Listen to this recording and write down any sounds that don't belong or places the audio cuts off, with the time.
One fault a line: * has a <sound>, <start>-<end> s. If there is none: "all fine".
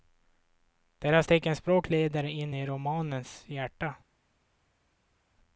all fine